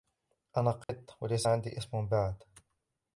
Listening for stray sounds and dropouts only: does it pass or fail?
fail